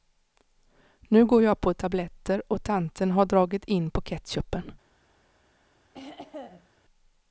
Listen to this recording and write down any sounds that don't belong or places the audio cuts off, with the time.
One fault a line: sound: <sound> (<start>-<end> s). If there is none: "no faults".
sound: throat clearing (5.9-6.7 s)